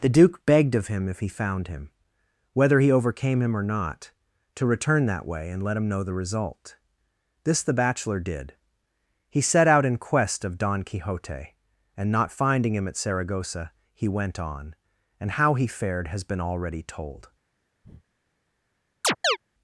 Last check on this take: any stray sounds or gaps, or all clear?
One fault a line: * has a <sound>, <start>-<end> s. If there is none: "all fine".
* has a breath, 17.8-18.0 s
* has a chirp, 19.0-19.4 s